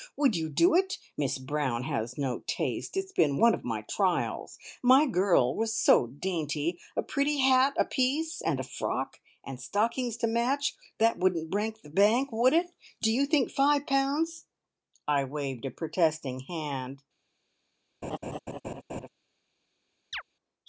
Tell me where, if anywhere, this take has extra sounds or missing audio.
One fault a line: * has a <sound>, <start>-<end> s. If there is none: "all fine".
* has a laugh, 18.0-19.1 s
* has a chirp, 20.1-20.2 s